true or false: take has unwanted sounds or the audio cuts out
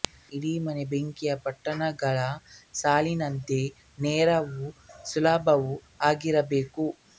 false